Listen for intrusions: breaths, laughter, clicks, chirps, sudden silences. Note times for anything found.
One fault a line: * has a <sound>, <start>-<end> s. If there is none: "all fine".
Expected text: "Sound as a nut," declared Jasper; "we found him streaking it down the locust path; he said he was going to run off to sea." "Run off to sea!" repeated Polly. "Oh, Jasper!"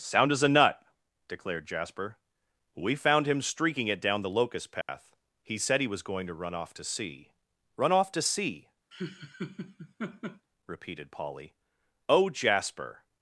* has a dropout, 4.8-4.9 s
* has a laugh, 8.9-10.5 s